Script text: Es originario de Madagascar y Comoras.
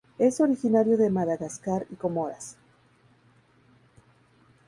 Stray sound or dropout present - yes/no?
no